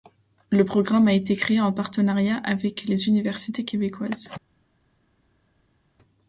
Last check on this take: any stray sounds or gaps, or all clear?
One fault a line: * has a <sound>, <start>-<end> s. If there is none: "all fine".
all fine